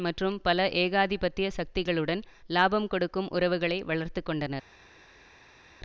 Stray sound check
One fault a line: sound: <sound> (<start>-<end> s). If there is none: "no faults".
no faults